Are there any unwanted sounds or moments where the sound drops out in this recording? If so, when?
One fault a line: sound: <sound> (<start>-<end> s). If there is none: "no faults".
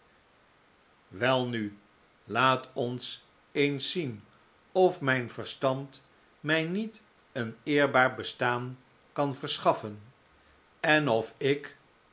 no faults